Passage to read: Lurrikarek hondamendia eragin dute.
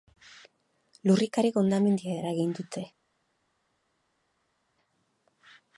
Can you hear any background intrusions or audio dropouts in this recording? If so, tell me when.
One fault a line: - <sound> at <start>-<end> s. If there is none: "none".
none